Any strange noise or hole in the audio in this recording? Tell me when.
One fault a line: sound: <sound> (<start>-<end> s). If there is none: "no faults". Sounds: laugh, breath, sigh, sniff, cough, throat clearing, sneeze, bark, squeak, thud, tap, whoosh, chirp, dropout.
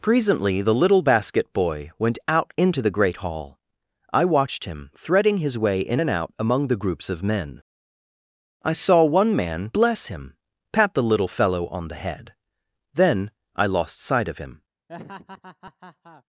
sound: laugh (14.9-16.2 s)